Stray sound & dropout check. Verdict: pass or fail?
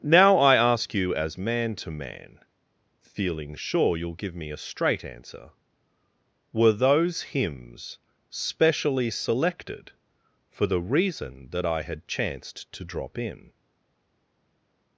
pass